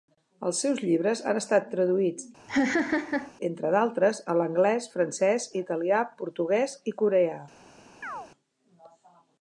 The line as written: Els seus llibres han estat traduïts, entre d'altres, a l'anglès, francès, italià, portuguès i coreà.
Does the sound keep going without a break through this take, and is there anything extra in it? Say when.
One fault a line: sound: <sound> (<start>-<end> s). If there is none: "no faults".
sound: laugh (2.5-3.3 s)
sound: chirp (8.0-8.3 s)